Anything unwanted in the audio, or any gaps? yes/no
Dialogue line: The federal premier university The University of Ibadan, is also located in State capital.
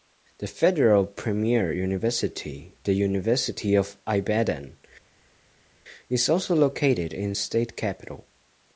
no